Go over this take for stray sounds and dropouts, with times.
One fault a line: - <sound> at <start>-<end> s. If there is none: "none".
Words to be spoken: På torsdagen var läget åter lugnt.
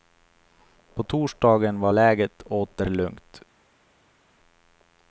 none